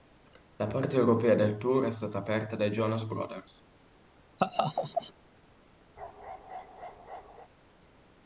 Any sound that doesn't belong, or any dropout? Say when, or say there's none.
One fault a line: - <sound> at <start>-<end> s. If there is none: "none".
- laugh at 4.4-5.1 s
- bark at 6.0-7.5 s